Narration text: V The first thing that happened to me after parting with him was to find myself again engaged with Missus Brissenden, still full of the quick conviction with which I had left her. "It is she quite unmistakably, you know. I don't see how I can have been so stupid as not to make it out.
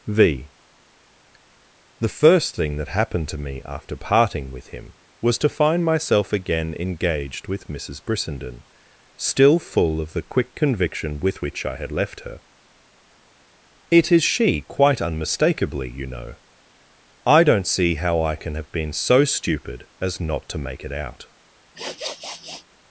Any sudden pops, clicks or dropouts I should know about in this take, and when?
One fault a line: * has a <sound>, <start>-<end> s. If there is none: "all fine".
* has a sniff, 21.7-22.6 s